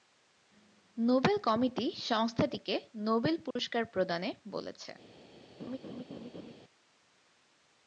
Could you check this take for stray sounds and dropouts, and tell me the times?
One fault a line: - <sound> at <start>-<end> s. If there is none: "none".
- dropout at 3.5-3.6 s
- laugh at 5.6-6.5 s